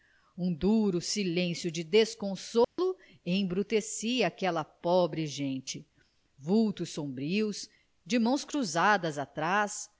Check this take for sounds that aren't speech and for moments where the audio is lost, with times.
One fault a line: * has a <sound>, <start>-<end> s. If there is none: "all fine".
* has a dropout, 2.6-2.8 s